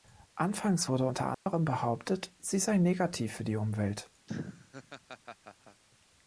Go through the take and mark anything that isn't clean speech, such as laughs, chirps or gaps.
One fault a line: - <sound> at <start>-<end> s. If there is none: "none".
- dropout at 1.3-1.5 s
- laugh at 4.3-5.8 s